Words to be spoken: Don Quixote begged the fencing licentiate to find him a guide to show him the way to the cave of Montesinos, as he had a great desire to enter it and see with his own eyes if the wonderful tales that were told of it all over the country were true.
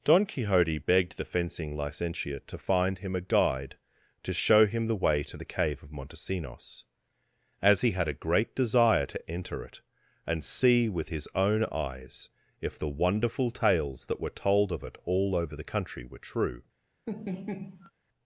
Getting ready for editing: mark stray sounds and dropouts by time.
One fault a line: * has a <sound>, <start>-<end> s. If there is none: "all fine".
* has a laugh, 17.1-17.9 s